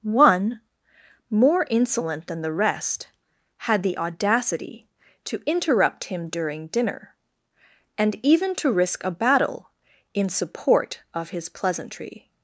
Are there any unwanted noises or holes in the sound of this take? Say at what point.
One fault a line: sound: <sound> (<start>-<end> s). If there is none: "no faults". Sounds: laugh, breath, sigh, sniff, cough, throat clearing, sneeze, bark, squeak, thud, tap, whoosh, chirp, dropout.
no faults